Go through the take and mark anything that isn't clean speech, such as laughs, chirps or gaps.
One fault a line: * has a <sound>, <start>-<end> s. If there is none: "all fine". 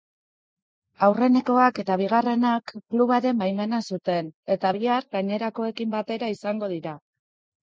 all fine